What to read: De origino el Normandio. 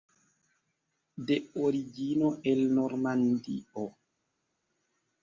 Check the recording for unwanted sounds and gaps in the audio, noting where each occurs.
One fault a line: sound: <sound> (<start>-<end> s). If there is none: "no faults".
no faults